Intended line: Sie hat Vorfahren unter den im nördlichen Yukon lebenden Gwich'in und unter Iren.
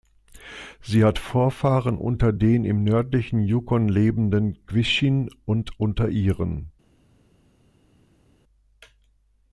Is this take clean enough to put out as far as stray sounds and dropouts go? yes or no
yes